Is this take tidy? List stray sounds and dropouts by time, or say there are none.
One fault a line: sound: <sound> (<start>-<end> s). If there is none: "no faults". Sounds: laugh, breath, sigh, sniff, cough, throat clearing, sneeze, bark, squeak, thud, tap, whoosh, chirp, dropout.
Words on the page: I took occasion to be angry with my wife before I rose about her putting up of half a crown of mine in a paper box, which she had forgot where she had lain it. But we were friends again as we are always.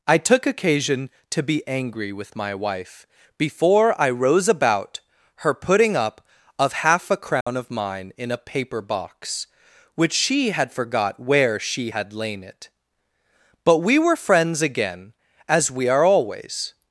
sound: dropout (7.4-7.5 s)